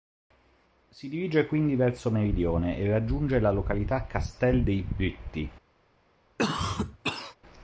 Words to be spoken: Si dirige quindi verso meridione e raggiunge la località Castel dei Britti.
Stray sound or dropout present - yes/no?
yes